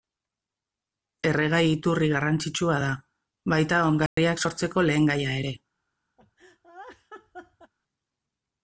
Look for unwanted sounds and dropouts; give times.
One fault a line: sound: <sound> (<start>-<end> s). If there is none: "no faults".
sound: dropout (4.1-4.2 s)
sound: laugh (6.2-7.7 s)